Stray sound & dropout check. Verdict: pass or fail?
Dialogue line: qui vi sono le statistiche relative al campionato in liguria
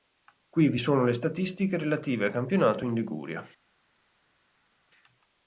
pass